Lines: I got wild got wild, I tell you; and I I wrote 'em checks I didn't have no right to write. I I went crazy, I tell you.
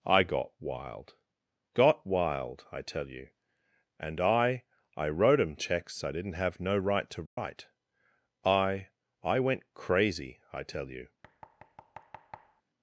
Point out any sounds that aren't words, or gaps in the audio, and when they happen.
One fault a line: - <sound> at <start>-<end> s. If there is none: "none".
- dropout at 7.3-7.4 s
- thud at 11.2-12.6 s